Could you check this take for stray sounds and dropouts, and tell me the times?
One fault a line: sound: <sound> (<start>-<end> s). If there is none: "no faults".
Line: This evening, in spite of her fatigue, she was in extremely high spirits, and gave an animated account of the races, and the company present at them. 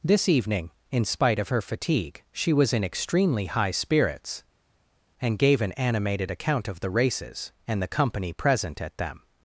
no faults